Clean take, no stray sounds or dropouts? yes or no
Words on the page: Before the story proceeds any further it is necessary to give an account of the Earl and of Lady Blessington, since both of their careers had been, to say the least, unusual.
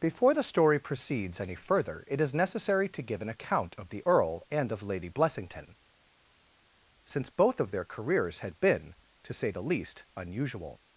yes